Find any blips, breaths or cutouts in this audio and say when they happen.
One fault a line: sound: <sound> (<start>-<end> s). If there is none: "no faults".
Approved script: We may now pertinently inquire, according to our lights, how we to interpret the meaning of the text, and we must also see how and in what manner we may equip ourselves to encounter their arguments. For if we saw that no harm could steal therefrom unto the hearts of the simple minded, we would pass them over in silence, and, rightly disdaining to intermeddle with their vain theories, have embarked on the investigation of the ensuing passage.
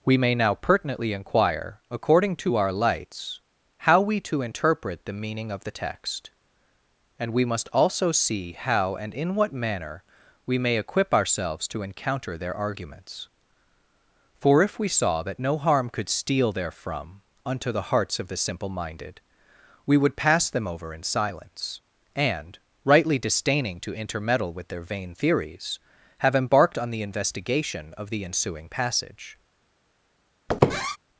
sound: squeak (30.5-31.0 s)